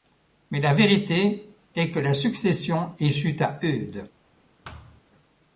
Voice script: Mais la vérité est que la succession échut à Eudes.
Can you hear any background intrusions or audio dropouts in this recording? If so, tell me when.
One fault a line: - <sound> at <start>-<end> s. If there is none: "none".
- thud at 4.6-5.0 s